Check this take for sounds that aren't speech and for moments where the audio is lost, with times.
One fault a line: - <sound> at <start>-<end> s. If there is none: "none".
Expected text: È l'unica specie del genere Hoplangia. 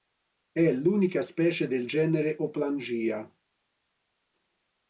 none